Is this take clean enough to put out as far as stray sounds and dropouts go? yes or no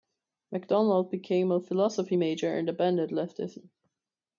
yes